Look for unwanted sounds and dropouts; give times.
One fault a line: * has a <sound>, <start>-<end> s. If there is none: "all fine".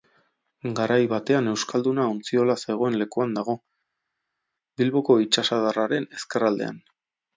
all fine